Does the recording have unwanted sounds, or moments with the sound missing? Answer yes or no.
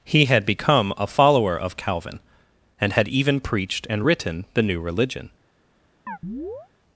yes